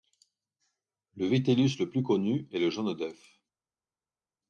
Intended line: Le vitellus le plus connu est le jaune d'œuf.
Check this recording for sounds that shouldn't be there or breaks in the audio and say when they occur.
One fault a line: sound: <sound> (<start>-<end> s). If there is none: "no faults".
no faults